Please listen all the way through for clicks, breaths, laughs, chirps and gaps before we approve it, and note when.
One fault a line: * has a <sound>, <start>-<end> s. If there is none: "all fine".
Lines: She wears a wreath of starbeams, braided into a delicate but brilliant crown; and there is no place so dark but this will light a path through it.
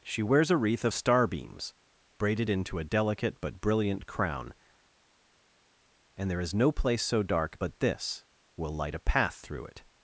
all fine